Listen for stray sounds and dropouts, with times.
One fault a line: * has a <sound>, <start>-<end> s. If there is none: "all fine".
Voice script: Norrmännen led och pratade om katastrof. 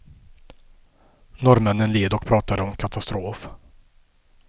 all fine